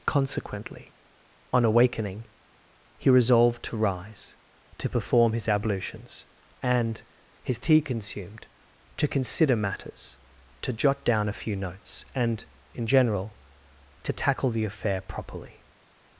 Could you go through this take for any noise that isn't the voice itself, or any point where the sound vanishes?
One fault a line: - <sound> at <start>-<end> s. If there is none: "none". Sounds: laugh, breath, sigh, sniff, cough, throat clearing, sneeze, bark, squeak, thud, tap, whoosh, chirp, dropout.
none